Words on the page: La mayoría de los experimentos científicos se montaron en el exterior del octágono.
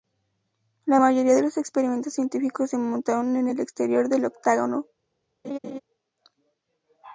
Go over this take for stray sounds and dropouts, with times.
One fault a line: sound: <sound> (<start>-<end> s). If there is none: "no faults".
sound: laugh (5.4-5.8 s)